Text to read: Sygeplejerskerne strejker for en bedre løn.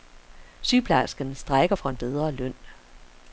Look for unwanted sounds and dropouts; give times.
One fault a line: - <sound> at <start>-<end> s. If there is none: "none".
none